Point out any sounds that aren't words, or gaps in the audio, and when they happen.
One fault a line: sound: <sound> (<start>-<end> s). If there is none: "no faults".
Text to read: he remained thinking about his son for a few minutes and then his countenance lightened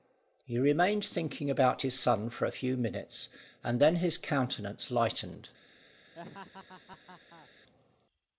sound: laugh (6.2-7.5 s)